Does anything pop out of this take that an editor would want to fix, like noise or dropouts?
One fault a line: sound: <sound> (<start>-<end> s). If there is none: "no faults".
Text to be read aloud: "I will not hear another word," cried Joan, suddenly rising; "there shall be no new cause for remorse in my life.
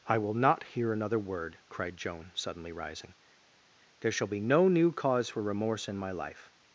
no faults